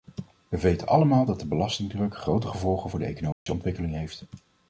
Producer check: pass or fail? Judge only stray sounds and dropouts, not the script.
fail